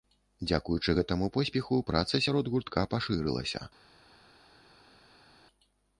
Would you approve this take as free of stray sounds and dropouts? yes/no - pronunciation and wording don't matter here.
yes